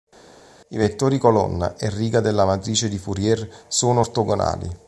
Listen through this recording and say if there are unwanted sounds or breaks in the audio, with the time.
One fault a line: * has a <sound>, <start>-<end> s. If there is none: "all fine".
all fine